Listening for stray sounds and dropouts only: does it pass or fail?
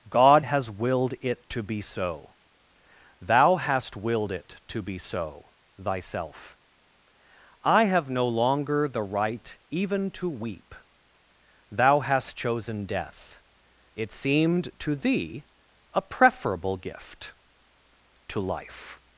pass